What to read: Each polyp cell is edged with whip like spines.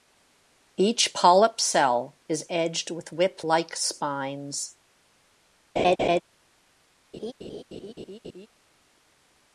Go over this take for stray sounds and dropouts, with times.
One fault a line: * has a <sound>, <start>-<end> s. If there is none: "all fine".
* has a laugh, 5.8-6.2 s
* has a laugh, 7.1-8.5 s